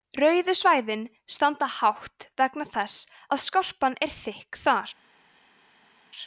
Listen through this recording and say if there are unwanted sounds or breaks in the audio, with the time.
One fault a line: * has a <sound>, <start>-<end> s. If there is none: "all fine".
all fine